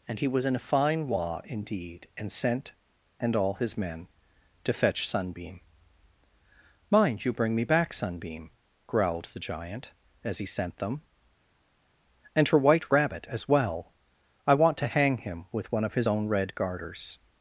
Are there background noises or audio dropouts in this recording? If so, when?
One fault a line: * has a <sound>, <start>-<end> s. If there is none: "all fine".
all fine